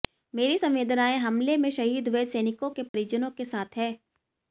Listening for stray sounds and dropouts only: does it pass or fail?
fail